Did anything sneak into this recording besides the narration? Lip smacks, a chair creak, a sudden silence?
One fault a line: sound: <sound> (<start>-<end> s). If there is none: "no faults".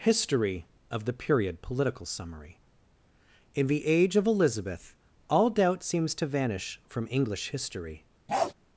sound: bark (8.3-8.5 s)